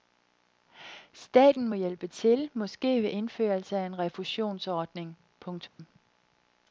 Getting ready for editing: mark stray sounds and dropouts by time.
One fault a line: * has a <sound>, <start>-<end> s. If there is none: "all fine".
* has a dropout, 5.7-5.8 s